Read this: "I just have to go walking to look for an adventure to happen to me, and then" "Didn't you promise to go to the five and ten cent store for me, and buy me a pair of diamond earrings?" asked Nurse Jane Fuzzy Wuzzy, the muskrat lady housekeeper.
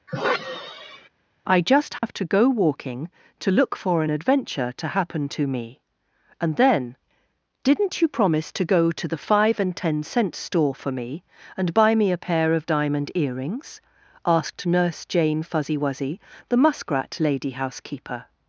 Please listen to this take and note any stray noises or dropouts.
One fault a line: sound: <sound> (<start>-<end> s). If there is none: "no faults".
sound: sigh (0.1-1.1 s)
sound: dropout (2.0-2.0 s)